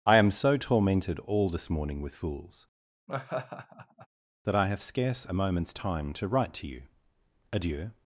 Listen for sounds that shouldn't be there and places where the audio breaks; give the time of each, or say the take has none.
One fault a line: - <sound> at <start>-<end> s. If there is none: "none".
- laugh at 3.1-4.1 s